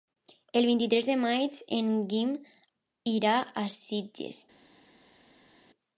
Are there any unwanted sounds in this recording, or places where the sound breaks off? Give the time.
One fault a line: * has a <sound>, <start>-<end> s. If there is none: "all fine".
all fine